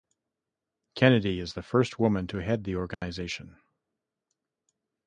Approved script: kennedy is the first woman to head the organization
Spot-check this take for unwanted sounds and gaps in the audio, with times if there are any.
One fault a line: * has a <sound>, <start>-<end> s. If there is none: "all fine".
* has a dropout, 2.9-3.0 s